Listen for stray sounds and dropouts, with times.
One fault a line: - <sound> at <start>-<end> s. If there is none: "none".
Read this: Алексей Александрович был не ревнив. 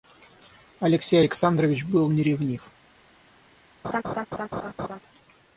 - laugh at 3.8-5.0 s